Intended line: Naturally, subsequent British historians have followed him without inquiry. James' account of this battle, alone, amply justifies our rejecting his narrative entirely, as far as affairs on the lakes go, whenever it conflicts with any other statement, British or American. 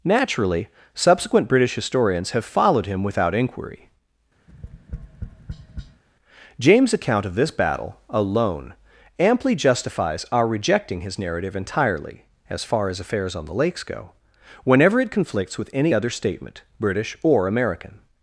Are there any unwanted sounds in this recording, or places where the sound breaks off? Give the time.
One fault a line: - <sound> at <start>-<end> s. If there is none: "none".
- tap at 4.5-6.0 s